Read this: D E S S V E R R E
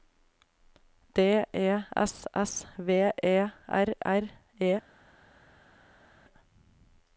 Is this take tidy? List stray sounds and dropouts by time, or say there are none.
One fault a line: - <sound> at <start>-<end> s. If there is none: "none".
none